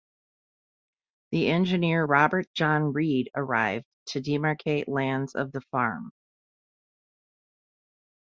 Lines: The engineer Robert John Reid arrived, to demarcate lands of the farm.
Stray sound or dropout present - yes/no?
no